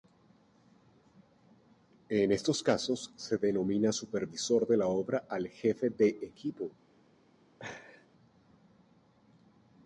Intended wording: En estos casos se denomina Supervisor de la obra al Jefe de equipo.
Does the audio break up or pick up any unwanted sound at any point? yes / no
yes